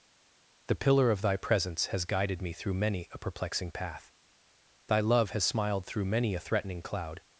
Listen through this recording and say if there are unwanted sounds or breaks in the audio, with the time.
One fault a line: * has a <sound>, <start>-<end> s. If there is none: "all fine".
all fine